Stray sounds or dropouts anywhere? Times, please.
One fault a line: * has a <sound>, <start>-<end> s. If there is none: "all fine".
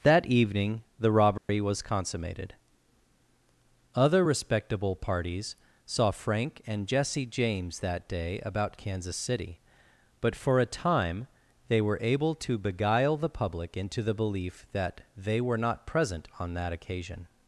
* has a dropout, 1.4-1.5 s